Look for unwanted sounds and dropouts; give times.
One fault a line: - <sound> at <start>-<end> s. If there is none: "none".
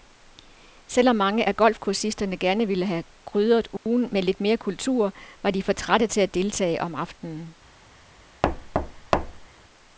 - dropout at 3.8-3.9 s
- thud at 8.4-9.5 s